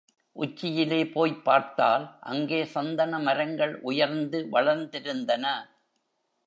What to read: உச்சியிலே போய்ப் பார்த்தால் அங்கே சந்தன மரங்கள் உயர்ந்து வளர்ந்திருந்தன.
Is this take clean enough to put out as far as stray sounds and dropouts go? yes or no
yes